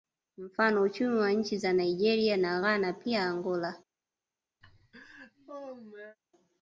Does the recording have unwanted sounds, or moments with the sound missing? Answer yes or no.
yes